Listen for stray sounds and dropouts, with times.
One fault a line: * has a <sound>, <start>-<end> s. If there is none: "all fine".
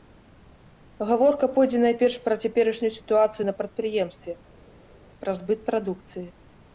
all fine